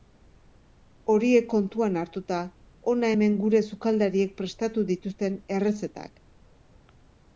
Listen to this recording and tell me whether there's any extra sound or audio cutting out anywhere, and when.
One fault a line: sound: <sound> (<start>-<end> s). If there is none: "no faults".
no faults